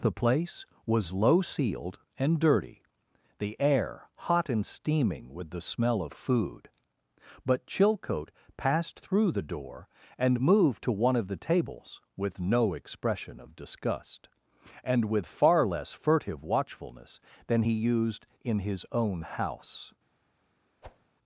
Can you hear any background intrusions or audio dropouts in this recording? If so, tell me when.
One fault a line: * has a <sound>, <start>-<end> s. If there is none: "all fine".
* has a whoosh, 20.8-21.1 s